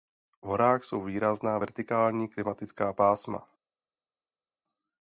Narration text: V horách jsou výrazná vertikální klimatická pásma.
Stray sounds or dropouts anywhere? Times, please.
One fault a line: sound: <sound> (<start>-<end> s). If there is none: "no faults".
no faults